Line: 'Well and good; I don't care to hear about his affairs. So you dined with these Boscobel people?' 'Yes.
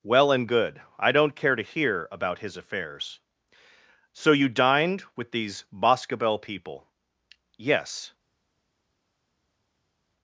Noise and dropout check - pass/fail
pass